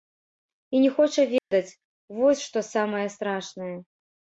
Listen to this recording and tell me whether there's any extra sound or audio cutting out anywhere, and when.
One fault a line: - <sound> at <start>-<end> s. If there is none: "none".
- dropout at 1.4-1.5 s